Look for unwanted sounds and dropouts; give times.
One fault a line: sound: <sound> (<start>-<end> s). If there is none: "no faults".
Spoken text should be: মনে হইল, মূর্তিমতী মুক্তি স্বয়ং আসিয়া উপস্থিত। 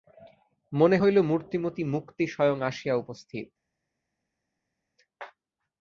no faults